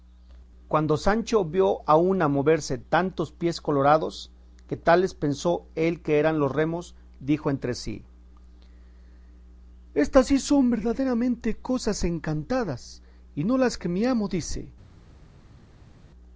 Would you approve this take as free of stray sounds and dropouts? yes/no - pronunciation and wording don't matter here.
yes